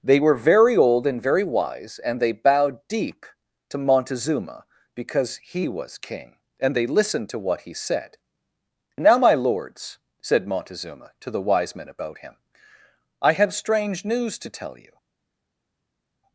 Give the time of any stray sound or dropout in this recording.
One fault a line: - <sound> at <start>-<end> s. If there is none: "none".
none